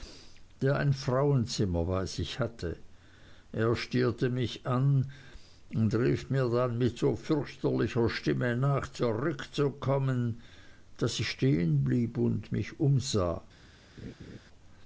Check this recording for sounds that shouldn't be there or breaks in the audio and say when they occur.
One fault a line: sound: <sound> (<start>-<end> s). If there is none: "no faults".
sound: laugh (14.0-14.4 s)